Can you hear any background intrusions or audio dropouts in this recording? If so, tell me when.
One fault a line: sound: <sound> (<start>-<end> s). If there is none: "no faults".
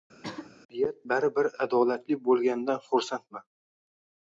sound: throat clearing (0.2-0.5 s)